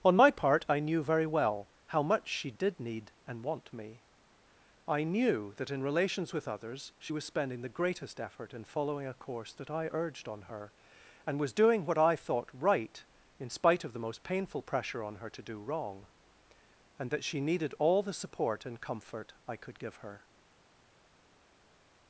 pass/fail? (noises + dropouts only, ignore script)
pass